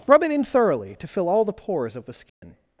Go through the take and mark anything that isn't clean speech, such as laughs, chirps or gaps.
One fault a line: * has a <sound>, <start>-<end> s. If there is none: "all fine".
* has a dropout, 2.3-2.4 s